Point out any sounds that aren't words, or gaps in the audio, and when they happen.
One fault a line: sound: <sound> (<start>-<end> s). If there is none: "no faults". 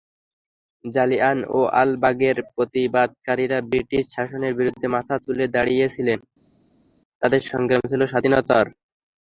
no faults